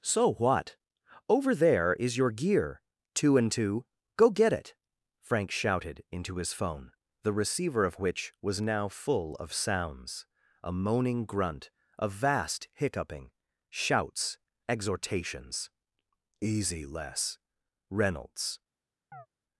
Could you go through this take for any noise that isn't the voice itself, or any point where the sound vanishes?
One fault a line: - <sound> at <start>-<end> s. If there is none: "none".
- chirp at 19.1-19.3 s